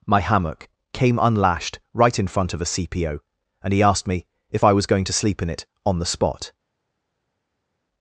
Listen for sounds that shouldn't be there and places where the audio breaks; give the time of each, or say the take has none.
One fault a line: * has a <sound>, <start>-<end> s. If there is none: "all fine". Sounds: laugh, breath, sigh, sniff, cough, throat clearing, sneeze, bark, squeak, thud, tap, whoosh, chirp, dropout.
all fine